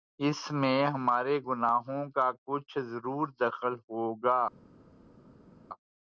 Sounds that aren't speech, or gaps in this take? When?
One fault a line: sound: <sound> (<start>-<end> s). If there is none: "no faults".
no faults